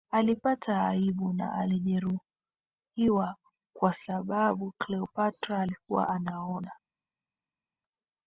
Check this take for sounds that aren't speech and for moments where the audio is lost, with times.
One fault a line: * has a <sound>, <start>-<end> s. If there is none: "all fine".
all fine